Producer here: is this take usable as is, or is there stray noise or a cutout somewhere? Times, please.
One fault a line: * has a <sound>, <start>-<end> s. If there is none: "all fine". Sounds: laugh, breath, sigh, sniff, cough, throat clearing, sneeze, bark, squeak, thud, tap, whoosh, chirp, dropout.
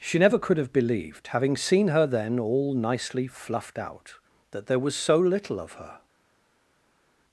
all fine